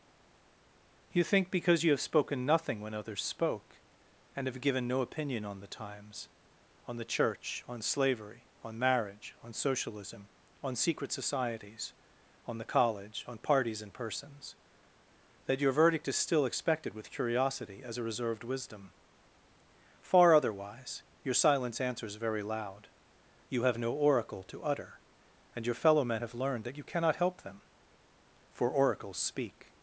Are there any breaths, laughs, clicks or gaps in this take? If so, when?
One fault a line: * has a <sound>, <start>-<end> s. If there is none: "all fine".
all fine